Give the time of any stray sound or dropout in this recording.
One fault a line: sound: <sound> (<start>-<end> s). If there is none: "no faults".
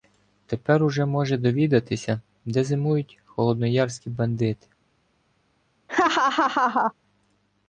sound: laugh (5.9-6.9 s)